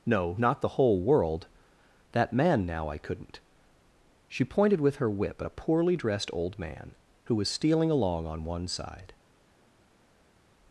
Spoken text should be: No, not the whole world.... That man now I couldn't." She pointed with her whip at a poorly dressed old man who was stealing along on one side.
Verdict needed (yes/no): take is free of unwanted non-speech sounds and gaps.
yes